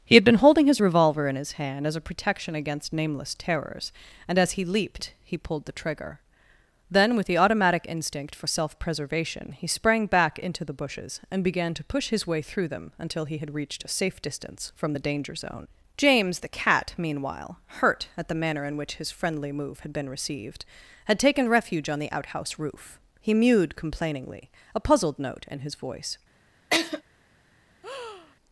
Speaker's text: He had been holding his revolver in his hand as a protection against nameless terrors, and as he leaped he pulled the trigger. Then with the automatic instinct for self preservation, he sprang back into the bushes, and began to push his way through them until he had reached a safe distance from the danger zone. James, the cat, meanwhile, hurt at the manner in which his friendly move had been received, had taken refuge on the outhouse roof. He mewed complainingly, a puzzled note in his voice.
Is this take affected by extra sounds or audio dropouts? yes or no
yes